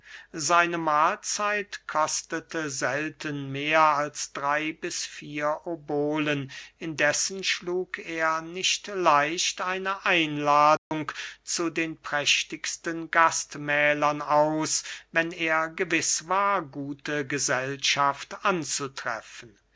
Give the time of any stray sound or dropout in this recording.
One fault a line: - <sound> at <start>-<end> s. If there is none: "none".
- dropout at 10.8-10.9 s